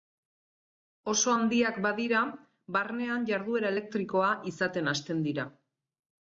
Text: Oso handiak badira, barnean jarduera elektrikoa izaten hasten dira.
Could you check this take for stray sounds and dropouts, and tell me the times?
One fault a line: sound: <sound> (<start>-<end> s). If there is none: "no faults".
no faults